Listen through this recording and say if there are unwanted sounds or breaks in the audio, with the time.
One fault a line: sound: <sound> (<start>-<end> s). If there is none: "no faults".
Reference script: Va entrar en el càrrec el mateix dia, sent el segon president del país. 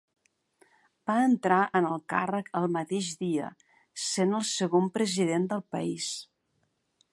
no faults